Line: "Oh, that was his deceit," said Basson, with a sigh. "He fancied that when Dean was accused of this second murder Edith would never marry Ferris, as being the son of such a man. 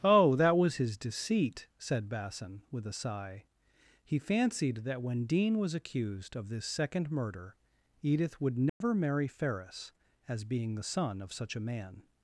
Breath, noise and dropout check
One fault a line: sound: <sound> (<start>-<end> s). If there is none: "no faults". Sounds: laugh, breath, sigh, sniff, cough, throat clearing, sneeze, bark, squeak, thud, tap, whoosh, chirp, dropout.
sound: dropout (8.7-8.8 s)